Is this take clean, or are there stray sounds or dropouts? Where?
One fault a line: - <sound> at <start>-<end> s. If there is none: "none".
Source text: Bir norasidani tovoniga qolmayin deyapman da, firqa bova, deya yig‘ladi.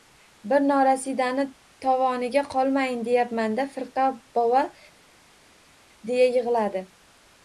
none